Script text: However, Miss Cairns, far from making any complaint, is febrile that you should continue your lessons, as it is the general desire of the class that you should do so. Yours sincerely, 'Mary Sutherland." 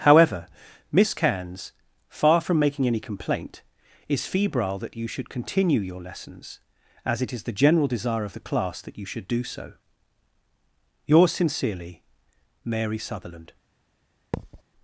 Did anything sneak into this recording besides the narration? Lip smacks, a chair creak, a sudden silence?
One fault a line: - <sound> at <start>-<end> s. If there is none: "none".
- thud at 14.3-14.6 s